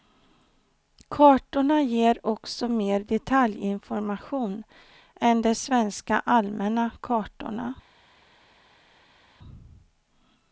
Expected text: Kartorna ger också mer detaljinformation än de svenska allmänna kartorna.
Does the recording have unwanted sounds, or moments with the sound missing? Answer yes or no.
no